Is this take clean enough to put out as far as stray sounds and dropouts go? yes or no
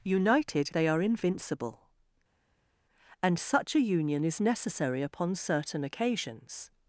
yes